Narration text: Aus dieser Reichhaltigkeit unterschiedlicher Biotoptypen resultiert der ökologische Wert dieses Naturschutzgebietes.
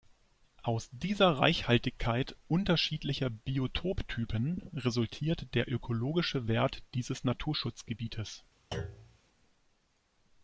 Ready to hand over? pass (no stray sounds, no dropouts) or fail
fail